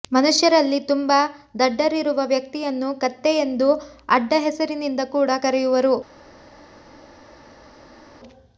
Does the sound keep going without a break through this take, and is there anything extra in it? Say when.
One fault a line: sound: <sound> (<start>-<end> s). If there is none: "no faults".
no faults